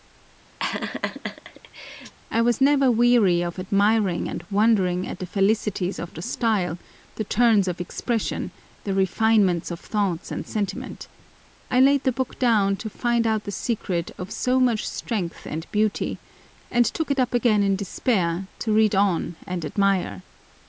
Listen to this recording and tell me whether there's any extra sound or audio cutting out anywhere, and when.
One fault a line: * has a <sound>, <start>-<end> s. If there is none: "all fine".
* has a laugh, 0.6-2.1 s